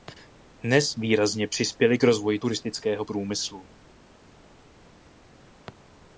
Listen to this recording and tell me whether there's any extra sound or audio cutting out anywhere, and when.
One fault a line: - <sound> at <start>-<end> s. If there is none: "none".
none